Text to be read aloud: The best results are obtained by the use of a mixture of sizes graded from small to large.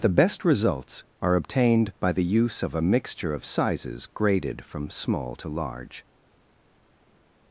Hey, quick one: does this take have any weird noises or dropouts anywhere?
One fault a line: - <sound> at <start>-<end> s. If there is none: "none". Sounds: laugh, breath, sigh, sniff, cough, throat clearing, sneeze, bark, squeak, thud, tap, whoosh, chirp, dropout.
none